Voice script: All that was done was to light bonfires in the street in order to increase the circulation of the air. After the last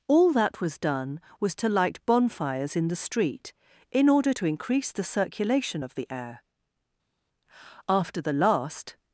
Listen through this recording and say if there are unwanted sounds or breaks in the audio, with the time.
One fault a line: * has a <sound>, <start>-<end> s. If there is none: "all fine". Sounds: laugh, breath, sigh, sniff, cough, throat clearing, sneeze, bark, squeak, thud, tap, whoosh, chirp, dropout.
all fine